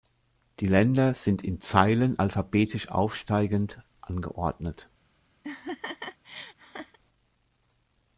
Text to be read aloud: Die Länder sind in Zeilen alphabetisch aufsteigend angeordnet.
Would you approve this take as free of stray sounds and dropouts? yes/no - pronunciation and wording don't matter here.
no